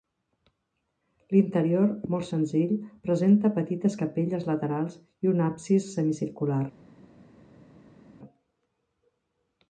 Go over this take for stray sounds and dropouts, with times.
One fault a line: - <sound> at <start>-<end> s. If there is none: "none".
none